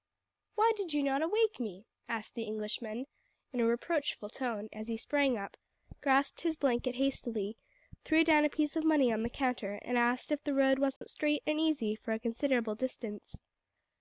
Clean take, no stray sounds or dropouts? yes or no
no